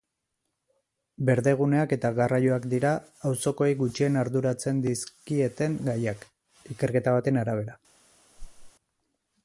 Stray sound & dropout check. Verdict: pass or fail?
fail